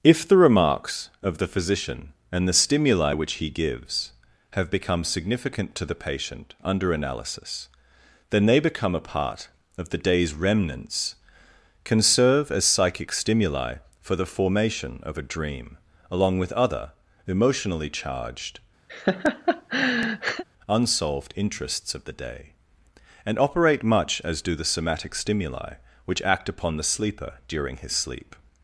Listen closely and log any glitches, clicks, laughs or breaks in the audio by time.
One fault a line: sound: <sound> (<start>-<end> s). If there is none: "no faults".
sound: laugh (18.9-20.4 s)